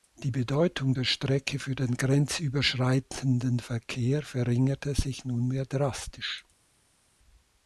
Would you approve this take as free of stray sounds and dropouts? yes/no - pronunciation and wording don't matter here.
yes